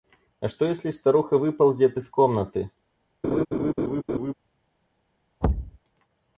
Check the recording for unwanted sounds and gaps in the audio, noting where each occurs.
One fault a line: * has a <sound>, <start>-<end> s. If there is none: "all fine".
* has a laugh, 3.2-4.3 s
* has a thud, 5.4-5.8 s